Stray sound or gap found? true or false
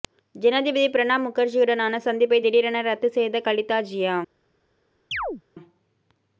true